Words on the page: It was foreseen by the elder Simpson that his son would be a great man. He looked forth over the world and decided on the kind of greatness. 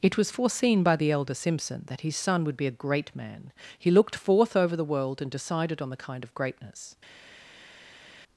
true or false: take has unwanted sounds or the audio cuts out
false